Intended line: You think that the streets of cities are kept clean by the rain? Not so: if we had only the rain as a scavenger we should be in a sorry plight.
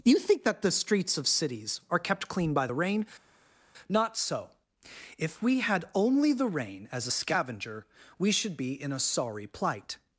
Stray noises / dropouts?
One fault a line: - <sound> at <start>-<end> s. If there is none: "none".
none